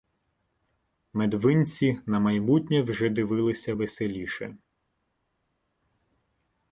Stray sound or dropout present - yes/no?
no